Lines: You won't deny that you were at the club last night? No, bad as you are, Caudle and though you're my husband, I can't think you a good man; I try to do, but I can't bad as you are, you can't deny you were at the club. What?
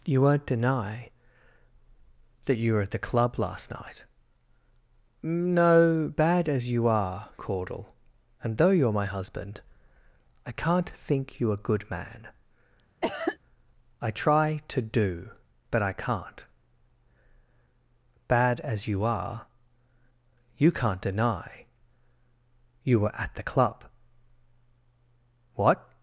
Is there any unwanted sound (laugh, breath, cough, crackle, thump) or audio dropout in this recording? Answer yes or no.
yes